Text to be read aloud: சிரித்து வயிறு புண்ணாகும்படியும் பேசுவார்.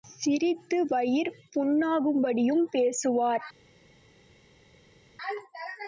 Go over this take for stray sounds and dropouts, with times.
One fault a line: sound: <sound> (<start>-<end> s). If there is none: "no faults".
no faults